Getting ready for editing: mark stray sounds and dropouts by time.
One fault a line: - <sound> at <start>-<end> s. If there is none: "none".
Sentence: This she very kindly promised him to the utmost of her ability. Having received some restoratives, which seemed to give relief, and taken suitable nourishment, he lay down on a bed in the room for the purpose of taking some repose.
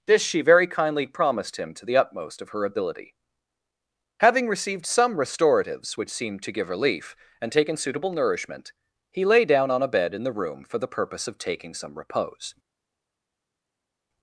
none